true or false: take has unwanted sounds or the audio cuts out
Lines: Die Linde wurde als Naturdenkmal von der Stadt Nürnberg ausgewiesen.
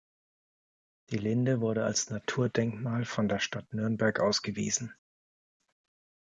false